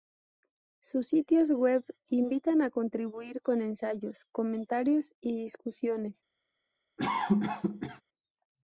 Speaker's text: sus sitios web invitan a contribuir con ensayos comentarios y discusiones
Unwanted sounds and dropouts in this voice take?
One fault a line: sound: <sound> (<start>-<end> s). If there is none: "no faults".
sound: cough (7.0-8.0 s)